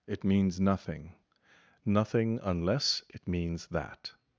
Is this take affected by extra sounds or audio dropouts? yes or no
no